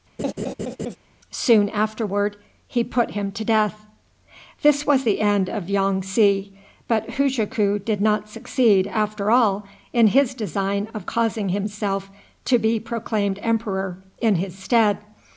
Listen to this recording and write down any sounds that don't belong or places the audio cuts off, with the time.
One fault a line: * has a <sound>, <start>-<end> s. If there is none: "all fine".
* has a laugh, 0.2-1.0 s